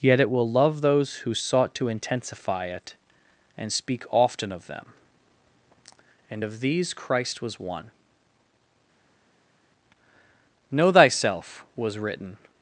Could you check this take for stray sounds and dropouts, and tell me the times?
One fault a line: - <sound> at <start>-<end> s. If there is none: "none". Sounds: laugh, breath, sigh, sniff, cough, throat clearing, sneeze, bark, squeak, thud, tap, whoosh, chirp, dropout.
none